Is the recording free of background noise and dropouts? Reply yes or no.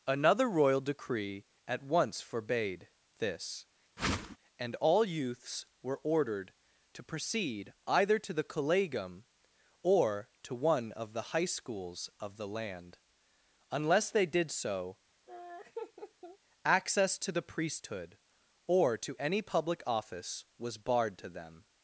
no